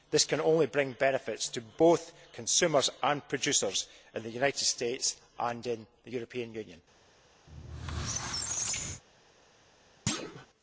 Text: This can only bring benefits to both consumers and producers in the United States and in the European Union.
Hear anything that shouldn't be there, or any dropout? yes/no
yes